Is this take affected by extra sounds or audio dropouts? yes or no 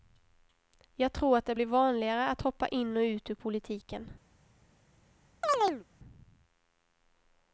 yes